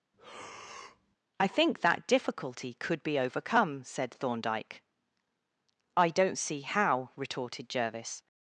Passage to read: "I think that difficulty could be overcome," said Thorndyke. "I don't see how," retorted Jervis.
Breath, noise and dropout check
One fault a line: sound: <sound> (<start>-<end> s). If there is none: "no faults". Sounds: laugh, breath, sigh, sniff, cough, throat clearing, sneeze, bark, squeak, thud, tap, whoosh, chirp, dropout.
sound: breath (0.1-1.2 s)